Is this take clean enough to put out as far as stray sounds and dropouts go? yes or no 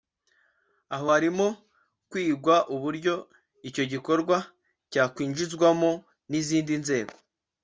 yes